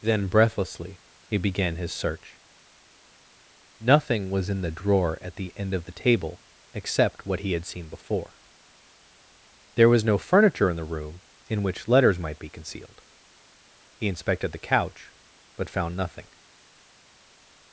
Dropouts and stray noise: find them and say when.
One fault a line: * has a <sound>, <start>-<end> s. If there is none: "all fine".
all fine